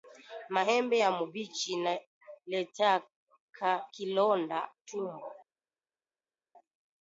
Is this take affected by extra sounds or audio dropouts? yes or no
no